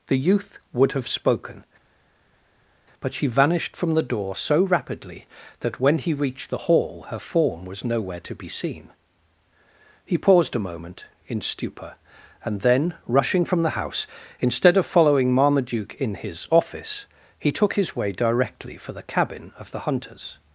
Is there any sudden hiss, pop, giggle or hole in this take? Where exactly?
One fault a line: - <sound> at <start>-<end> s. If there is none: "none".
none